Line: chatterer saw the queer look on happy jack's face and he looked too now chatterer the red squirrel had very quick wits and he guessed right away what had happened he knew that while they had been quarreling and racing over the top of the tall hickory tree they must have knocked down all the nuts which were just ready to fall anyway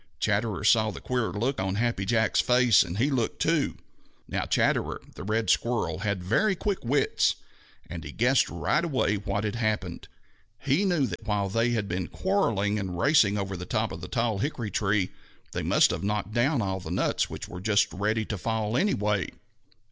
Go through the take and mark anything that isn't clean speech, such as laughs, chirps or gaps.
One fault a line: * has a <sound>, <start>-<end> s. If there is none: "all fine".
* has a dropout, 11.2-11.2 s